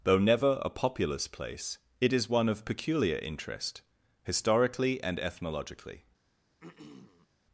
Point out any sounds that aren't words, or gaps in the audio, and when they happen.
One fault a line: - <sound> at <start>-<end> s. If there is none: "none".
- throat clearing at 6.6-7.3 s